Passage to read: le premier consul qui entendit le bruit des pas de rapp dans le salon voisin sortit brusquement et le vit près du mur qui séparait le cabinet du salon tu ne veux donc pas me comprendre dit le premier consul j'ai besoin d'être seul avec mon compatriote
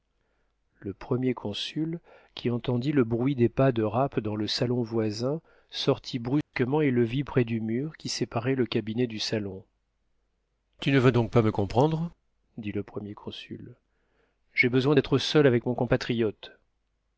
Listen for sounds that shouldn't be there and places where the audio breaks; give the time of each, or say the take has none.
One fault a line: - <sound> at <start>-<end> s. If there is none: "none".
- dropout at 6.4-6.5 s